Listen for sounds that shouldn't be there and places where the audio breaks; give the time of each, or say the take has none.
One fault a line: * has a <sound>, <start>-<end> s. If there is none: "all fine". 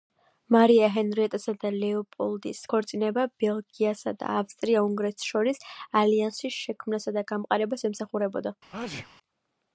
* has a sneeze, 8.7-9.1 s